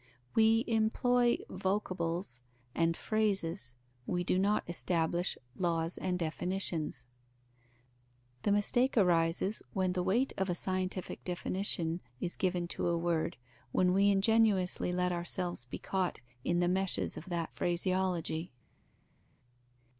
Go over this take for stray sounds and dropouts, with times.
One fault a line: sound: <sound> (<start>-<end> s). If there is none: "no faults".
no faults